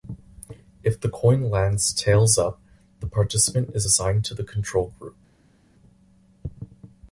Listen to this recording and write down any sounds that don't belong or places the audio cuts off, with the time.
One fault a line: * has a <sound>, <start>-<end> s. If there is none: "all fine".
all fine